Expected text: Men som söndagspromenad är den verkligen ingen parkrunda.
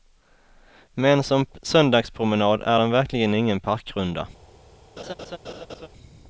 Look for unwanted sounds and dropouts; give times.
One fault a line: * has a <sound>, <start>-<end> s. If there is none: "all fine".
* has a laugh, 5.0-5.9 s